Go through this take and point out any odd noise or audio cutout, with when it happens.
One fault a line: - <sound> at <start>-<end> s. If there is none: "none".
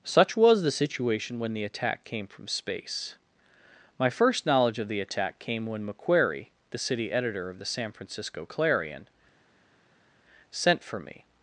none